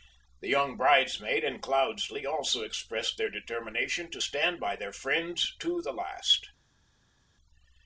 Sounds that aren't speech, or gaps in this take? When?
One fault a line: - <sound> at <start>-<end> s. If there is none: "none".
none